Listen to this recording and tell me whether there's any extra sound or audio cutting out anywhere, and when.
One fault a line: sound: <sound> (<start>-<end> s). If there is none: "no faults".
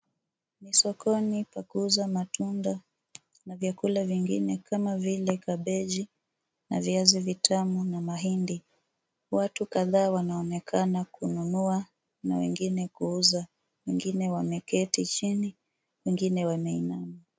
no faults